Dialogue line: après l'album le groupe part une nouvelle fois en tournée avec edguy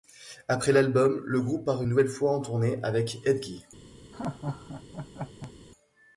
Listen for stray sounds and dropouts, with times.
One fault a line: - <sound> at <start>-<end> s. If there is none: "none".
- laugh at 4.1-5.5 s